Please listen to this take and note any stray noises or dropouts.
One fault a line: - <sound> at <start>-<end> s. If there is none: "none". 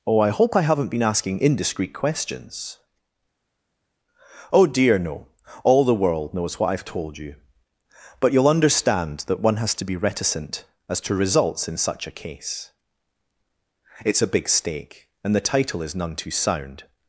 none